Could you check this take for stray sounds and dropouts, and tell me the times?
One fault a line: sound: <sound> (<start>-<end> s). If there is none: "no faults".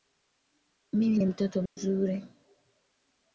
sound: dropout (1.7-1.8 s)